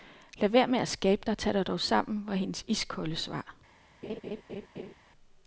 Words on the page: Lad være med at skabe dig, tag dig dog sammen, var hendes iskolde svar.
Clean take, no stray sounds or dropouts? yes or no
no